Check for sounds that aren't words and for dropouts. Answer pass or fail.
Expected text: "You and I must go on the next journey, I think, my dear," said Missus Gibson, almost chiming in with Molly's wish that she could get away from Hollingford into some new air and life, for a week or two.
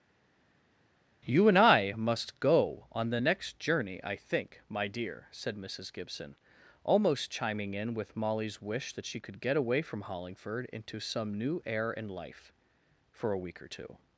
pass